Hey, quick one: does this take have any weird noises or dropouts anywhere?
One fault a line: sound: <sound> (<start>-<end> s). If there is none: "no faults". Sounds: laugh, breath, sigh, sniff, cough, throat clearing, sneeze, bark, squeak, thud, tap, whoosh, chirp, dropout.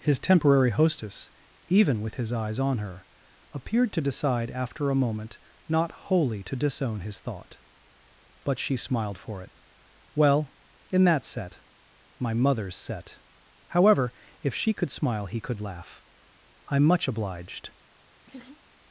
sound: laugh (18.2-18.6 s)